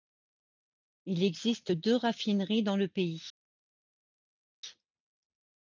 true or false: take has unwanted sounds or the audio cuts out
false